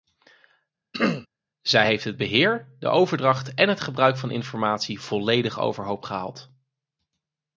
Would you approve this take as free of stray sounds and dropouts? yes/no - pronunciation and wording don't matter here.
no